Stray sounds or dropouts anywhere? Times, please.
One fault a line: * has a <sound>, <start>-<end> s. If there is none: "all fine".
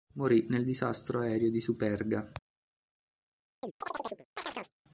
* has a chirp, 3.6-4.7 s